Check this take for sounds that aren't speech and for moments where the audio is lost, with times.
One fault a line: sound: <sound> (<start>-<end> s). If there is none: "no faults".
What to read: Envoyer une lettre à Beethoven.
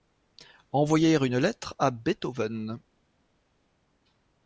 no faults